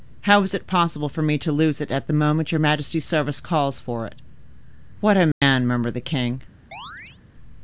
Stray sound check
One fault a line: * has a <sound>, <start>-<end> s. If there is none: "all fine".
* has a dropout, 5.3-5.4 s
* has a chirp, 6.7-7.2 s